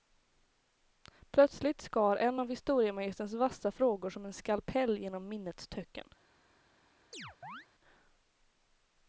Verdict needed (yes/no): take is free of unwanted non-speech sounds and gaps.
no